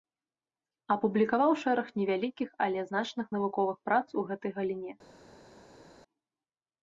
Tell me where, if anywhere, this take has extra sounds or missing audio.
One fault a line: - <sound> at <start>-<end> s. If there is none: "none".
none